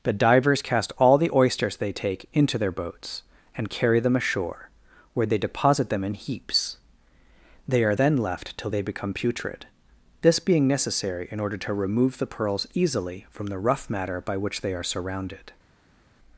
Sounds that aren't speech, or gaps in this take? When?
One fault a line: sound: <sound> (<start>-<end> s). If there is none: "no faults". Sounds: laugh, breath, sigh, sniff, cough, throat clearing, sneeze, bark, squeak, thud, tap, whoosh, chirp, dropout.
no faults